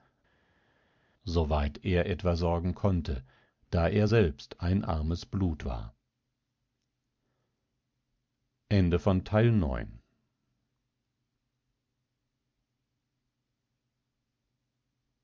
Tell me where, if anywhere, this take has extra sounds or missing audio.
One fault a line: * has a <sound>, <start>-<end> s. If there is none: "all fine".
all fine